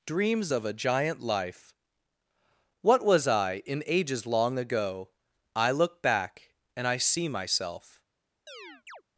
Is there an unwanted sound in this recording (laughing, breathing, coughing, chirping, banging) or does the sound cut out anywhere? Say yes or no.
yes